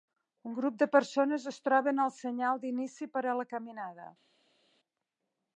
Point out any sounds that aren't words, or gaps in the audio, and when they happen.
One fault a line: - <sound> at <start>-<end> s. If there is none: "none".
none